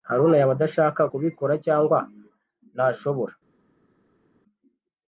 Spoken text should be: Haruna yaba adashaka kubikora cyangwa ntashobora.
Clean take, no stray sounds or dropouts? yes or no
yes